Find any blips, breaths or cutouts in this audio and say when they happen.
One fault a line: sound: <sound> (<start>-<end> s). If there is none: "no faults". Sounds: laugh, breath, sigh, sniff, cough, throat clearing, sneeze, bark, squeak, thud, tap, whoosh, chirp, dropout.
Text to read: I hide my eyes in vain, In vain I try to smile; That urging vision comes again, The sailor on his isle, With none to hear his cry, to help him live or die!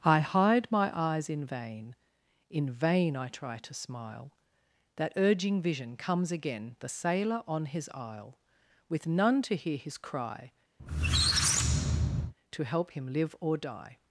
sound: squeak (10.8-12.3 s)